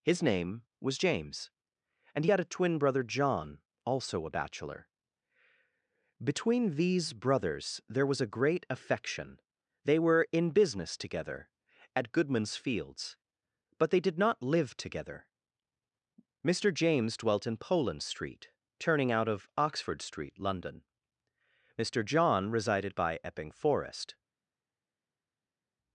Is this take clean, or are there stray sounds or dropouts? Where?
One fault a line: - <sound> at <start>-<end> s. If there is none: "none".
none